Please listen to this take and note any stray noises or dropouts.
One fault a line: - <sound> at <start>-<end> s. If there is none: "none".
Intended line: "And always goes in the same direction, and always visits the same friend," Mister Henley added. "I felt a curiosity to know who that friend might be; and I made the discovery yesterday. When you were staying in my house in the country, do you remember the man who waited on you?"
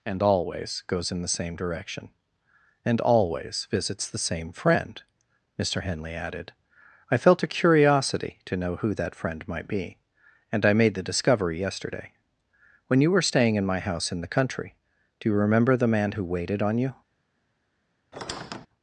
- squeak at 18.1-18.7 s